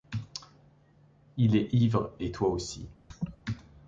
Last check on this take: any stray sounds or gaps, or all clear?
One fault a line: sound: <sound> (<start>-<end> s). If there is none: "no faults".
sound: laugh (3.1-3.4 s)